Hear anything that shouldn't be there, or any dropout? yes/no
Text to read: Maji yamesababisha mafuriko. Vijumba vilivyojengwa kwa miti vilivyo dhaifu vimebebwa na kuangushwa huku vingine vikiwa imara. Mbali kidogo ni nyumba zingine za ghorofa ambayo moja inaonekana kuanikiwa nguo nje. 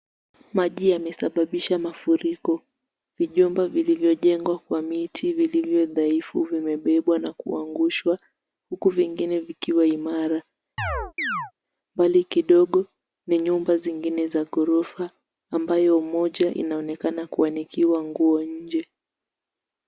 yes